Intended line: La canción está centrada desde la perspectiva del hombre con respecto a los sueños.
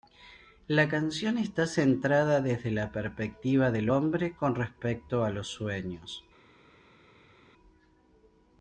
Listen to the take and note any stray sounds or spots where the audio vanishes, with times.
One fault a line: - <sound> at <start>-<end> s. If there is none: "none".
none